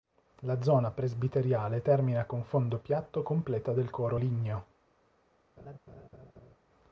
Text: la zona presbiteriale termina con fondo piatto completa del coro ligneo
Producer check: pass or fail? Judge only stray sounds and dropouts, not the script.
fail